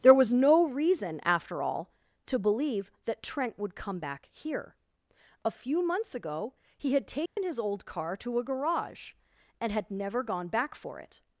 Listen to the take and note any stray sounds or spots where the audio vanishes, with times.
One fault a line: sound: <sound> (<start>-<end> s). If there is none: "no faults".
sound: dropout (7.3-7.4 s)